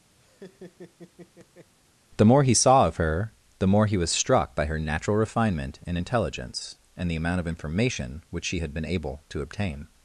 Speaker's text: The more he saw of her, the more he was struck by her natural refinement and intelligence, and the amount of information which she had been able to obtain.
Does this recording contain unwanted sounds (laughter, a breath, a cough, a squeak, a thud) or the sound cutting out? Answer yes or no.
yes